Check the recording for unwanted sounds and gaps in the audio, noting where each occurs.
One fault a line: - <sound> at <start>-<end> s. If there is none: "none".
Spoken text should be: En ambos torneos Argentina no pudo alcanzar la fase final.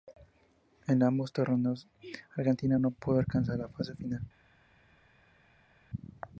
none